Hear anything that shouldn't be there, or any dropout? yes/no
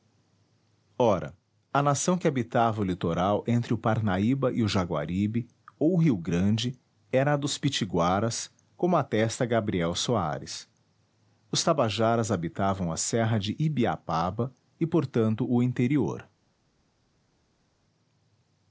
no